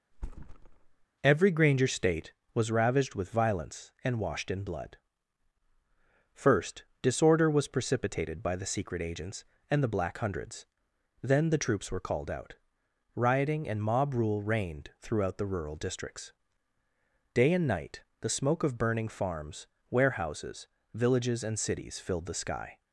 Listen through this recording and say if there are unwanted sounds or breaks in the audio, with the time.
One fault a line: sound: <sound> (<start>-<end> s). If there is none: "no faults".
sound: thud (0.1-1.1 s)